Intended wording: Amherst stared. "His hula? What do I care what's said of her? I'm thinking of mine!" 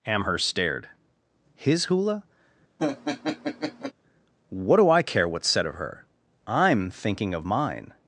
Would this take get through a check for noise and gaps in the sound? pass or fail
fail